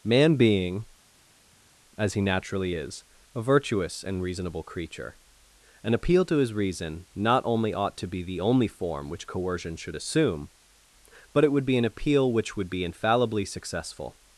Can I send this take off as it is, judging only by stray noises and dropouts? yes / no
yes